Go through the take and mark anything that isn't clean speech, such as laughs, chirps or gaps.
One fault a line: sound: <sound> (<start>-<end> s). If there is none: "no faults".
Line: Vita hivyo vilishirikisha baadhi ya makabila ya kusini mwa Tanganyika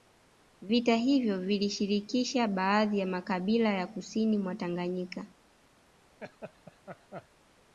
sound: laugh (6.2-7.3 s)